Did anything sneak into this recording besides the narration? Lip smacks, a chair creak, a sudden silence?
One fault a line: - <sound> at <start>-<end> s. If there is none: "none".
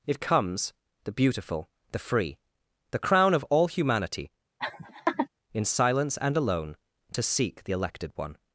- laugh at 4.6-5.3 s